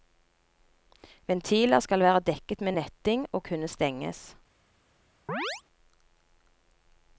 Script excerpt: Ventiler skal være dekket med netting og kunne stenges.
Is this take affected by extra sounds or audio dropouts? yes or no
yes